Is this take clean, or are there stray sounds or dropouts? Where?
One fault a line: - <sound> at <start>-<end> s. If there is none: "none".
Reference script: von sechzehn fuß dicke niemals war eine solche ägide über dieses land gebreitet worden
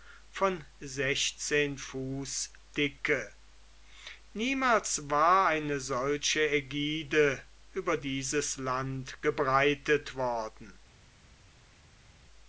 none